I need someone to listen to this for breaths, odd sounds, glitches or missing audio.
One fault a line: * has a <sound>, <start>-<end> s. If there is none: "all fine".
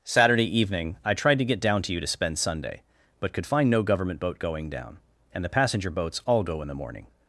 all fine